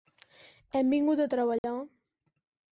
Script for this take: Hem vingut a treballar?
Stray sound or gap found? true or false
true